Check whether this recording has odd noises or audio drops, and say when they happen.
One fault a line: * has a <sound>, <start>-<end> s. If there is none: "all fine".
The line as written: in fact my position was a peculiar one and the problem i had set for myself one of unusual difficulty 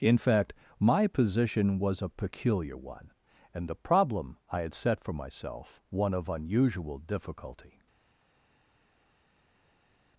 all fine